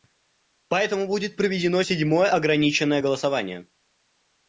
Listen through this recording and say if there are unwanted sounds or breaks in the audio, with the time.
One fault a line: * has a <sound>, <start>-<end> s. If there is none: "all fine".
all fine